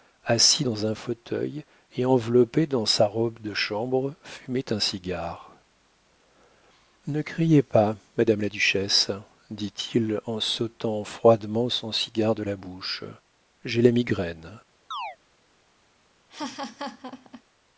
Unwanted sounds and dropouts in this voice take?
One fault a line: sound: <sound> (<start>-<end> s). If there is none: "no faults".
sound: chirp (14.9-15.2 s)
sound: laugh (16.3-17.4 s)